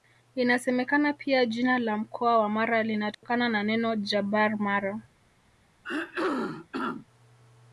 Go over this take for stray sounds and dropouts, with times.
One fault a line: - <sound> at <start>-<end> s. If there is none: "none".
- dropout at 3.1-3.2 s
- throat clearing at 5.8-7.1 s